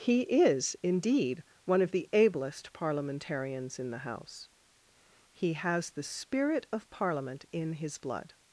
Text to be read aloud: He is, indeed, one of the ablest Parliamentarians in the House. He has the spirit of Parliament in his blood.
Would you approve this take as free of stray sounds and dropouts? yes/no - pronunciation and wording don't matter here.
yes